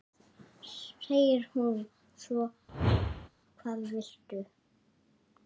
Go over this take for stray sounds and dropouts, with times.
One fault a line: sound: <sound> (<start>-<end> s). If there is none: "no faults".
sound: whoosh (2.7-3.3 s)